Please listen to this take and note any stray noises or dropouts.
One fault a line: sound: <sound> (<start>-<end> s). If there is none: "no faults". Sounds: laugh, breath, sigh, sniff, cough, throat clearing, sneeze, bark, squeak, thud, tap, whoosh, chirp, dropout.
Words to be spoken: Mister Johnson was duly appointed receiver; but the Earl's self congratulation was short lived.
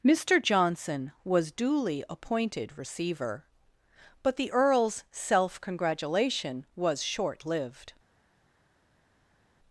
no faults